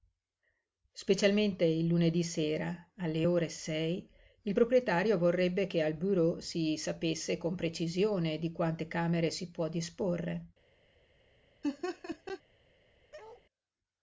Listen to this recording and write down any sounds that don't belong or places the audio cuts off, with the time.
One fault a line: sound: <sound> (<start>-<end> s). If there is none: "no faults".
sound: laugh (11.6-12.4 s)
sound: bark (13.1-13.4 s)